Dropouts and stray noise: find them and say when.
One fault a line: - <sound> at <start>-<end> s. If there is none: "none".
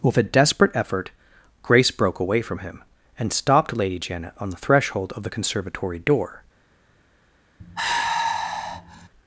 - sigh at 7.6-9.1 s